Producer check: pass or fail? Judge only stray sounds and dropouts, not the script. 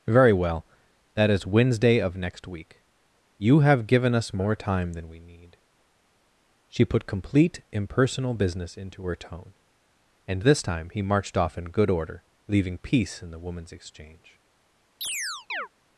fail